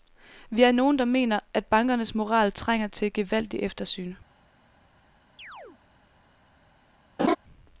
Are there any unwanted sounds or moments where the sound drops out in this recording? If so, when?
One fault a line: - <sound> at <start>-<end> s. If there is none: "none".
- chirp at 5.4-5.8 s
- laugh at 7.2-7.4 s